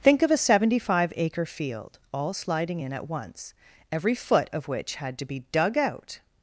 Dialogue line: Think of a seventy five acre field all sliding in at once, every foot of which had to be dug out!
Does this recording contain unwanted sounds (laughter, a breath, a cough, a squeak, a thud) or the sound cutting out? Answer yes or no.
no